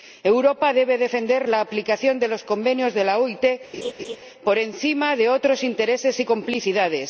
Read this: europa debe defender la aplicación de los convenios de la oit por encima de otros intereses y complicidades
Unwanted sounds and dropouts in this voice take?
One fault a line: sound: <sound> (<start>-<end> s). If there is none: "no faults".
sound: laugh (3.7-4.2 s)